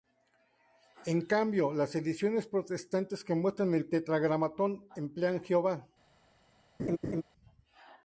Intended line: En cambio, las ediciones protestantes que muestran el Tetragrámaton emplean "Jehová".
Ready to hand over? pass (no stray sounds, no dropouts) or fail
fail